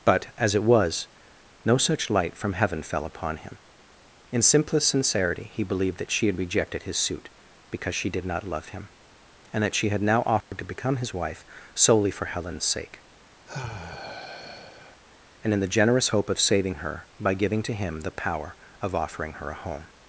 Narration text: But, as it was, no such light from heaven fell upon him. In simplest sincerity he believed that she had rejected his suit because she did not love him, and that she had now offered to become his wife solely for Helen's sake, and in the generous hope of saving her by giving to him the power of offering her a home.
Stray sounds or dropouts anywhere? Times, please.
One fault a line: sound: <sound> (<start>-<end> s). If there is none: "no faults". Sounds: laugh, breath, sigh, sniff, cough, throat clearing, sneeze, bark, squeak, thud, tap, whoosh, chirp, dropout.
sound: dropout (10.4-10.5 s)
sound: sigh (13.5-15.0 s)